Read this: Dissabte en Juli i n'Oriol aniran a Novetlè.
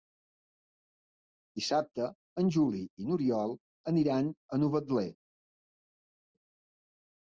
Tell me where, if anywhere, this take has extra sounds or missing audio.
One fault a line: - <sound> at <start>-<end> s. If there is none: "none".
none